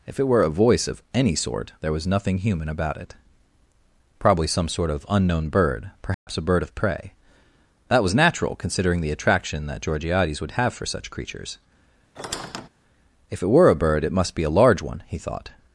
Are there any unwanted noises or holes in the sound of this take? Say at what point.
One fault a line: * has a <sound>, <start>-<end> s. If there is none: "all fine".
* has a dropout, 6.1-6.3 s
* has a squeak, 12.2-12.7 s